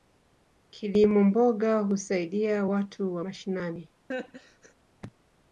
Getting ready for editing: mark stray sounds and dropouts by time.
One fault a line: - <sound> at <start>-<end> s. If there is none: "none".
- laugh at 4.1-4.7 s